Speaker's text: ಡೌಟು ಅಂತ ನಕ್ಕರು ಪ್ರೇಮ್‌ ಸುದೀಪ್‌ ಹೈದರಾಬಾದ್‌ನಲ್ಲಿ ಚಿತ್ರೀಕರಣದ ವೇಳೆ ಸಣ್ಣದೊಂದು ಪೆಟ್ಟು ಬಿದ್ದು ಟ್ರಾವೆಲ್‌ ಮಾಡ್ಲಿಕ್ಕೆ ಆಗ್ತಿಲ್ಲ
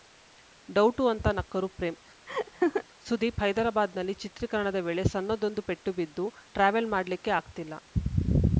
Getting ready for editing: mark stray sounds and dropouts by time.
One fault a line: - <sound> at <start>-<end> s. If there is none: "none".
- laugh at 2.3-2.8 s